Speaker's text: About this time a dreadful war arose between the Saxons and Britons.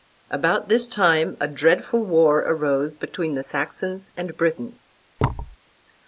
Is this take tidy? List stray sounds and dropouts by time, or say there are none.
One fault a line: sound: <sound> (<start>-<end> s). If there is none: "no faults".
sound: thud (5.2-5.6 s)